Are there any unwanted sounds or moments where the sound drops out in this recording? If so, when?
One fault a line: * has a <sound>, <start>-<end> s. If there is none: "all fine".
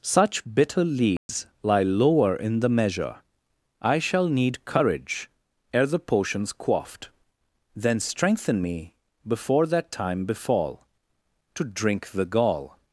* has a dropout, 1.2-1.3 s